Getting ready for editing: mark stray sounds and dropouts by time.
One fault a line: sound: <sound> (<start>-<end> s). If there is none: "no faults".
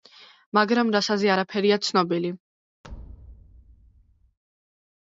sound: thud (2.8-4.4 s)